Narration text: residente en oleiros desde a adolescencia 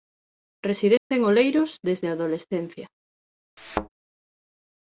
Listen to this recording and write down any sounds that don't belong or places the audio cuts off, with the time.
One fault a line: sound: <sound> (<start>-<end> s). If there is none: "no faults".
sound: dropout (1.0-1.1 s)
sound: thud (3.6-3.9 s)